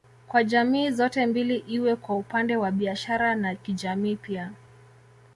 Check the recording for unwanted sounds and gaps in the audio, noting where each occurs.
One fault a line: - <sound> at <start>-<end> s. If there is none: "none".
none